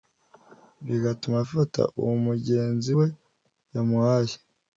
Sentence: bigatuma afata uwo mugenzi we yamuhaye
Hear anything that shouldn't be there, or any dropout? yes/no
no